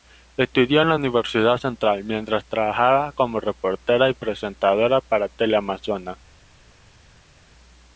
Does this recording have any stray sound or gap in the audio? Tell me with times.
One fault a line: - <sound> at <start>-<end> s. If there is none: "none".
none